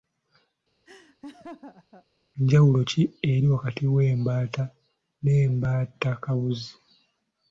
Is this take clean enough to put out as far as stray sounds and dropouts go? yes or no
no